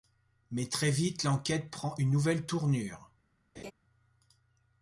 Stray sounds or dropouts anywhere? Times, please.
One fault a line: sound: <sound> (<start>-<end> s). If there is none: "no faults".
sound: laugh (3.6-3.7 s)